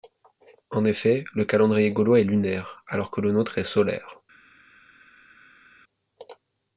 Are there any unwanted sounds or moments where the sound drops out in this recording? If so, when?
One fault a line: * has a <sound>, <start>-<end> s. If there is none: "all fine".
all fine